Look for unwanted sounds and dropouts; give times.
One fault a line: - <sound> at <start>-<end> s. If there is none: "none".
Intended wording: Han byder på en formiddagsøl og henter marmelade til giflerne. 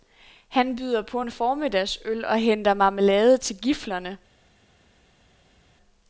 none